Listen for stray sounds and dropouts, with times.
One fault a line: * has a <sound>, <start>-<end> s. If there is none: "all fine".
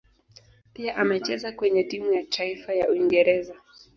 all fine